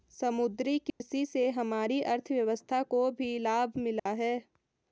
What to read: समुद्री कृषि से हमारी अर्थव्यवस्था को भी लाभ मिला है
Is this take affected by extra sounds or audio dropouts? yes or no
yes